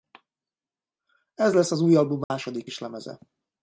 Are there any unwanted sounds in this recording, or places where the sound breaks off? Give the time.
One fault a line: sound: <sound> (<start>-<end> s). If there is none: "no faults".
sound: dropout (2.2-2.3 s)